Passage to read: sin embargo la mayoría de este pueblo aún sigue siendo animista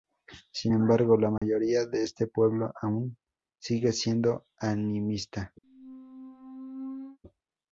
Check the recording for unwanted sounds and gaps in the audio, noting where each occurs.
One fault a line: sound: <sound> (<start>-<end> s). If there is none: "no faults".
sound: dropout (1.4-1.4 s)
sound: squeak (5.6-7.2 s)